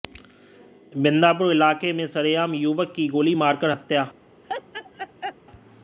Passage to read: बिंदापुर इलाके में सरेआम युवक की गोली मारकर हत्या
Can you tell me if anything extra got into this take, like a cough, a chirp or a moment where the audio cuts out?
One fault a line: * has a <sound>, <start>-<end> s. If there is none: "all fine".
* has a laugh, 4.4-5.4 s